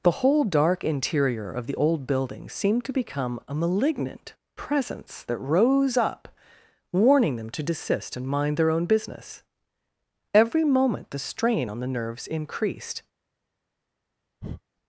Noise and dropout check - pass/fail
fail